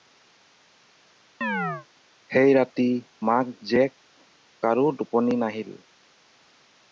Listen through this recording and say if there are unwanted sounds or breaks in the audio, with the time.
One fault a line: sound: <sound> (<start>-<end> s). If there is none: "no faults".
sound: chirp (1.4-1.9 s)